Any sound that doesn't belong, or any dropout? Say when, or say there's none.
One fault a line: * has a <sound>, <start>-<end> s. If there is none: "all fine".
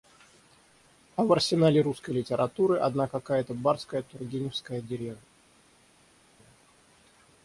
all fine